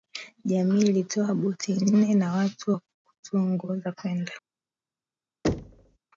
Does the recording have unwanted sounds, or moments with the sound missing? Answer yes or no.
yes